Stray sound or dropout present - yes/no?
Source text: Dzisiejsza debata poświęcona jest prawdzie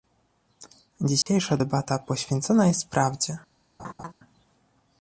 yes